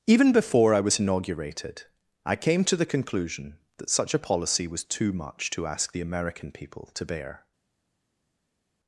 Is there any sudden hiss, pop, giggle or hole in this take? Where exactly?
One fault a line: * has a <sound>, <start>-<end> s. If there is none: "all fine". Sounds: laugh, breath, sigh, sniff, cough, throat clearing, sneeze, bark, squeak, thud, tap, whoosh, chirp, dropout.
all fine